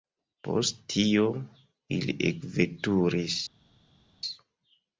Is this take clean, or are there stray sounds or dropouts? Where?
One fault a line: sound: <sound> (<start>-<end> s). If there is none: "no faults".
no faults